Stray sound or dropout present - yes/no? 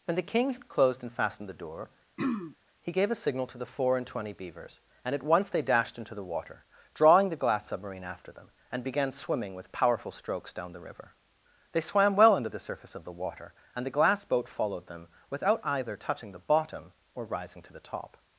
yes